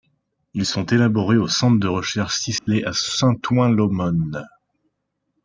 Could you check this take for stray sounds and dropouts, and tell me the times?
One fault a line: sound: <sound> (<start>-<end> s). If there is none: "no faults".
sound: dropout (2.6-2.7 s)